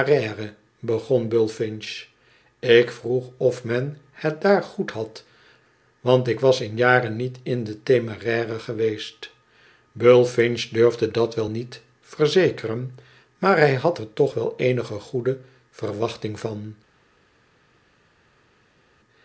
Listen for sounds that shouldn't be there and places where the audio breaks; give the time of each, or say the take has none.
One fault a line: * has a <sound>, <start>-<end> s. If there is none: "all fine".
all fine